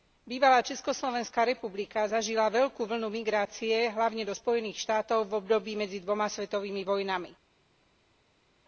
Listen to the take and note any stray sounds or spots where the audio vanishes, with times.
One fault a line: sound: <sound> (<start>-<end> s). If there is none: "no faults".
no faults